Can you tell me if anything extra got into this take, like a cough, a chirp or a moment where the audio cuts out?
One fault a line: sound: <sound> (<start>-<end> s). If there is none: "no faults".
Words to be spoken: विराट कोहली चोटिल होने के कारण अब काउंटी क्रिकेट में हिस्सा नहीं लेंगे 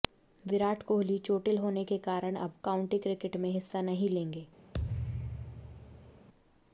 sound: thud (4.7-6.3 s)